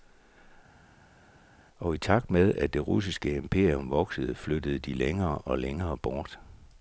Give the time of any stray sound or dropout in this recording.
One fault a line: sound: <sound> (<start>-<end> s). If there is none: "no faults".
no faults